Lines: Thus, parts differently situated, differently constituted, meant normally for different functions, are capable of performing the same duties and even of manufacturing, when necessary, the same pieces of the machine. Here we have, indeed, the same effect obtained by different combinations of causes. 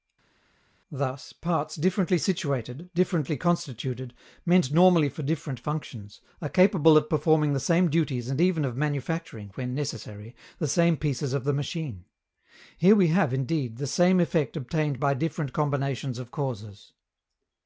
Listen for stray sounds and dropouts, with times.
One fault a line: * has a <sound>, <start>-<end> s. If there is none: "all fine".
all fine